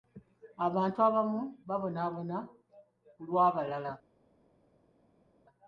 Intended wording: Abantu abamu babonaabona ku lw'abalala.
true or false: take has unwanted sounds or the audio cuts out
false